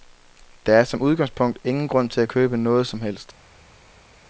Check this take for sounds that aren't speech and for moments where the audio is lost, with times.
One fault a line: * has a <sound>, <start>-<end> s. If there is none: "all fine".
all fine